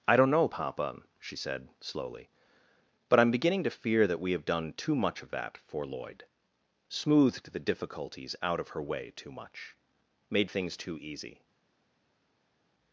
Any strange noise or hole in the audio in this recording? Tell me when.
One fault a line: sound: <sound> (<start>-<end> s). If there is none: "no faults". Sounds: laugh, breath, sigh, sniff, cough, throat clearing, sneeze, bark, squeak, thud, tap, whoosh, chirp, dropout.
no faults